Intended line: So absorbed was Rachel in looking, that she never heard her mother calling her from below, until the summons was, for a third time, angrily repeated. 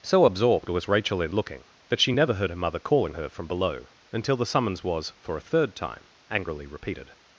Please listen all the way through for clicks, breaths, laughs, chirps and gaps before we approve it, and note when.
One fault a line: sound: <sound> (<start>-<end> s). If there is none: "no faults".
no faults